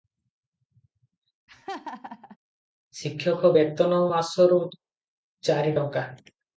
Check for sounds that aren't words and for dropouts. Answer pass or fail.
fail